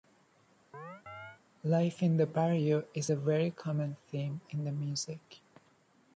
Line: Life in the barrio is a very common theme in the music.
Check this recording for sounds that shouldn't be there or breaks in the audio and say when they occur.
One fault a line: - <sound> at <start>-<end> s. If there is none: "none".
- chirp at 0.7-1.4 s